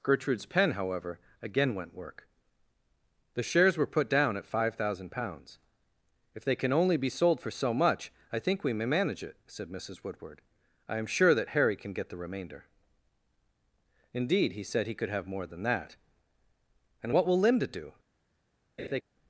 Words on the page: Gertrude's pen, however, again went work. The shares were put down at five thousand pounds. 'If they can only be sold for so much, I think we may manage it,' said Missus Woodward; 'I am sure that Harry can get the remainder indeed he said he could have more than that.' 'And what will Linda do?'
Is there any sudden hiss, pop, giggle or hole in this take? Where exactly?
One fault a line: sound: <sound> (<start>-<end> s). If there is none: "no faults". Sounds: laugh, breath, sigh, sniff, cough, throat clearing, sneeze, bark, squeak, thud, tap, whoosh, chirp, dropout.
sound: laugh (18.8-19.0 s)